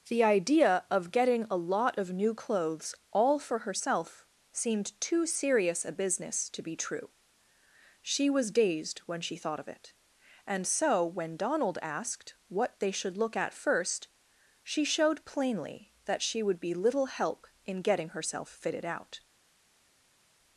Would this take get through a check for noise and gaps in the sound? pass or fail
pass